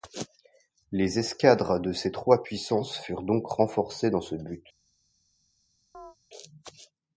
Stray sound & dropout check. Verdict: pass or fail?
fail